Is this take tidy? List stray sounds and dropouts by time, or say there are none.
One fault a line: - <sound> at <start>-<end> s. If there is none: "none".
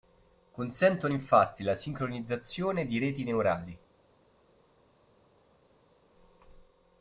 none